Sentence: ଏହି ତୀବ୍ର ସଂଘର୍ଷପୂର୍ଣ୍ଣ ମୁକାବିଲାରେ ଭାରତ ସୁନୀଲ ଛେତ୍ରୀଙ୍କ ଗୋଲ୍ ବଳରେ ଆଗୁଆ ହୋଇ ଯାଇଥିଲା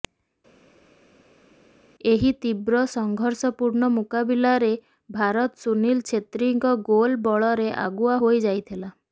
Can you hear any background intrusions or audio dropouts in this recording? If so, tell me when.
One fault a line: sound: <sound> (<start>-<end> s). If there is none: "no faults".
no faults